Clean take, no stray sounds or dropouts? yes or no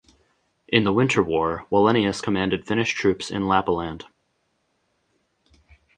yes